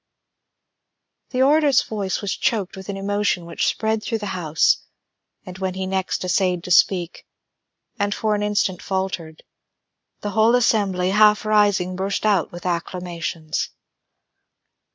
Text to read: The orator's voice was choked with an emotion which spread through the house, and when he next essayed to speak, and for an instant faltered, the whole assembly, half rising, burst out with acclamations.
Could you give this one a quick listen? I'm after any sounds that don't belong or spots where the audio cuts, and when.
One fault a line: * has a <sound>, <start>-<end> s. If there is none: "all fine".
all fine